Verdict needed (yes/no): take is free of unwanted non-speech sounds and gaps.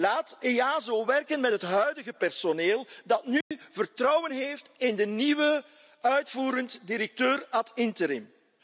no